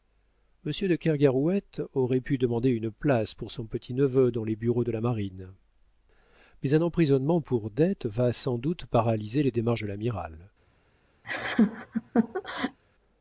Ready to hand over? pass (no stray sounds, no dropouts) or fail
fail